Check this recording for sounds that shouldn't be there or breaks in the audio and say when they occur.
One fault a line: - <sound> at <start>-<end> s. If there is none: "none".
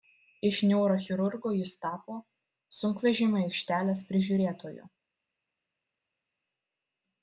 none